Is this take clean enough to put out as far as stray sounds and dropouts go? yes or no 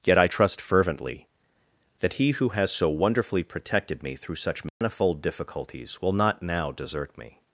no